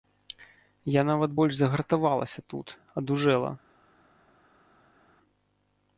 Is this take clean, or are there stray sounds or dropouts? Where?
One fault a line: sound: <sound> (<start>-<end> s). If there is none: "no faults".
no faults